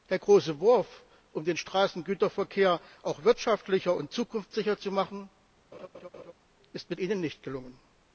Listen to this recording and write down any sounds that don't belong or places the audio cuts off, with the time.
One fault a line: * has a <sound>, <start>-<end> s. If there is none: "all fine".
* has a laugh, 5.7-6.3 s